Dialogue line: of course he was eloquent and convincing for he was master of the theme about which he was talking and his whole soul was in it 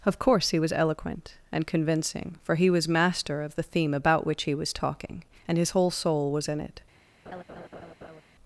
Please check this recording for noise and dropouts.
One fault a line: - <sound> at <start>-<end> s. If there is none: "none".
- laugh at 7.2-8.2 s